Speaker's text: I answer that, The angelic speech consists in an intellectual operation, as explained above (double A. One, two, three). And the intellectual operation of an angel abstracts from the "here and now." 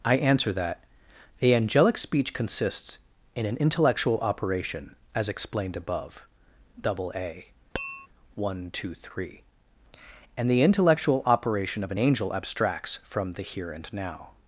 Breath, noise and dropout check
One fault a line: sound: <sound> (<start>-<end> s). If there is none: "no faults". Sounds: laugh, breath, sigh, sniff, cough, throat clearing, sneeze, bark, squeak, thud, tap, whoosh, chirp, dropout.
sound: tap (7.7-8.1 s)